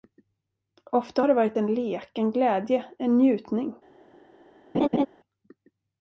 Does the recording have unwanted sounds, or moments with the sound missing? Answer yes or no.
yes